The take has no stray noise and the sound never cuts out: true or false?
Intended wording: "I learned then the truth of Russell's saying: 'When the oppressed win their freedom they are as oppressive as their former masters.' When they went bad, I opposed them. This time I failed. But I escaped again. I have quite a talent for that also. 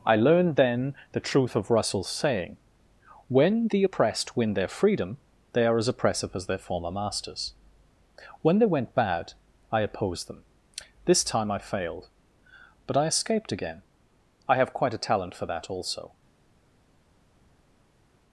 true